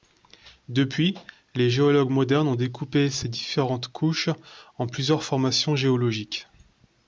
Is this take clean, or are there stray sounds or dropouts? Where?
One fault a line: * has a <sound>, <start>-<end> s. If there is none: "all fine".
all fine